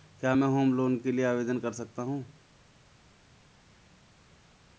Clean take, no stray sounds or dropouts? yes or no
yes